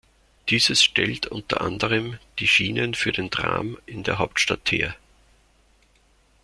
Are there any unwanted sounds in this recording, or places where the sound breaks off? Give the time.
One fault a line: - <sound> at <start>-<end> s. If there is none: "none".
none